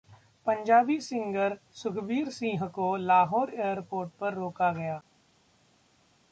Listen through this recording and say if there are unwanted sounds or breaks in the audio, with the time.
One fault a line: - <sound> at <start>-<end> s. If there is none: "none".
none